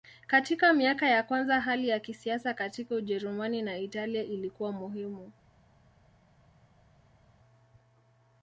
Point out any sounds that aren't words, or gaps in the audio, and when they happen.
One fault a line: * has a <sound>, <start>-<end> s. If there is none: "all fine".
all fine